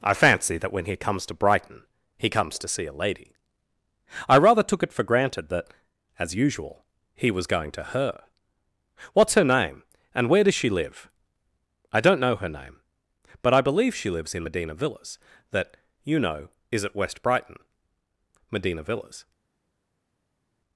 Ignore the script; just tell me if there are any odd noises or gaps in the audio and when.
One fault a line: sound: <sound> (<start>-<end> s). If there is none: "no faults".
no faults